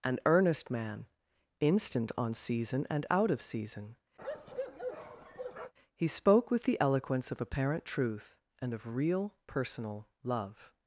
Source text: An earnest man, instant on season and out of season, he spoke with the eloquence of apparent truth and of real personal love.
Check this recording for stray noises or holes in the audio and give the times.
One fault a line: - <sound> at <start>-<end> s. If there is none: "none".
- bark at 4.2-5.7 s